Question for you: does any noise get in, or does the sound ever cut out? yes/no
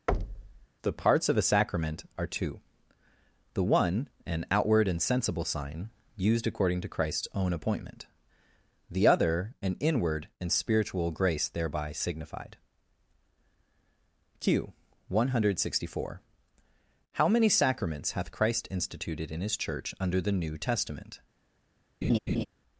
yes